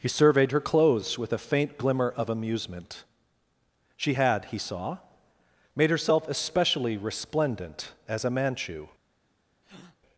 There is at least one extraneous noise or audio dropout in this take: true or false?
true